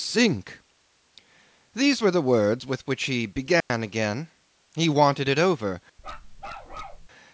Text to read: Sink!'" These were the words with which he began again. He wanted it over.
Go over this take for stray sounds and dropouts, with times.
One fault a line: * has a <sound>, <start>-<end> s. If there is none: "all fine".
* has a dropout, 3.6-3.7 s
* has a bark, 6.0-7.1 s